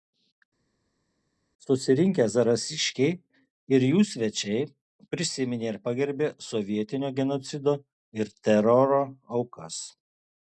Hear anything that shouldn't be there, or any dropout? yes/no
no